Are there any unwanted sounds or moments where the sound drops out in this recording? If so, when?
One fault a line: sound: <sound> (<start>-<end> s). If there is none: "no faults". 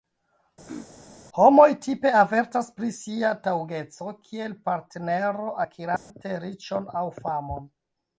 sound: throat clearing (0.7-0.9 s)
sound: dropout (6.0-6.1 s)